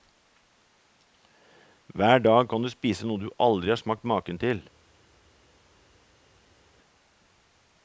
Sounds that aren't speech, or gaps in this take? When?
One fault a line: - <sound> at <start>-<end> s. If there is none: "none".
none